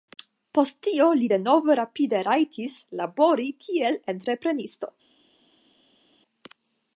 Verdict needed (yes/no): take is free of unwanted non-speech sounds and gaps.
yes